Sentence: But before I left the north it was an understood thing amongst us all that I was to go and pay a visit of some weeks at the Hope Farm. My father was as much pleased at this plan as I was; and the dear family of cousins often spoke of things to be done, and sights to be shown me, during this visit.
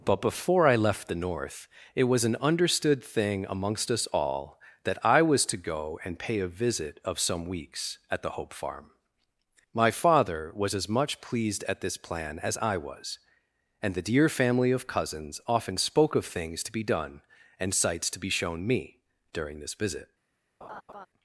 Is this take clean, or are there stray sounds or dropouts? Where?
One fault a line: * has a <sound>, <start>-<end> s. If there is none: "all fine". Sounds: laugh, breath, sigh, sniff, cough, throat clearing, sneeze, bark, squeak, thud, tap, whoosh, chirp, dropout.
* has a laugh, 20.6-21.1 s